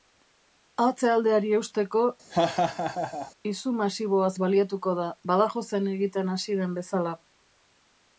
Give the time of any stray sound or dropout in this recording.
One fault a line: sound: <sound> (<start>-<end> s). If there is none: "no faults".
sound: laugh (2.3-3.3 s)